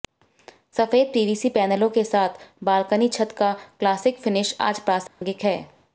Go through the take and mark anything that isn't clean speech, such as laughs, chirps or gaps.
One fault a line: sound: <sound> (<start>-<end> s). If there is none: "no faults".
sound: dropout (5.1-5.2 s)